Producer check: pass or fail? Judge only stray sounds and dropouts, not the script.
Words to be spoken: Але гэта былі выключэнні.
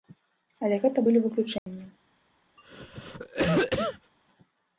fail